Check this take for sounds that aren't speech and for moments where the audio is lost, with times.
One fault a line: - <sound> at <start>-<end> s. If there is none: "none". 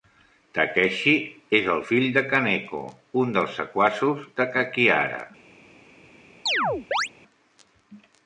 - chirp at 6.5-7.1 s